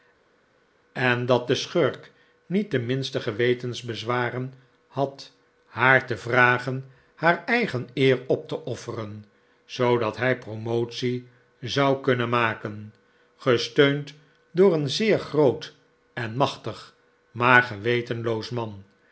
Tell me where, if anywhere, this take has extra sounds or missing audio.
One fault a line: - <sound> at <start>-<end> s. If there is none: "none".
none